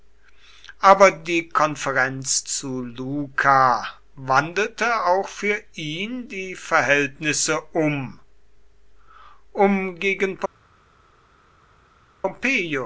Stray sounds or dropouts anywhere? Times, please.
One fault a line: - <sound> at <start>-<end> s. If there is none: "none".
none